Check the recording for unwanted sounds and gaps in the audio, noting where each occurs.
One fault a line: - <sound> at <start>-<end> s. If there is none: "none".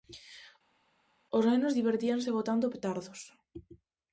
none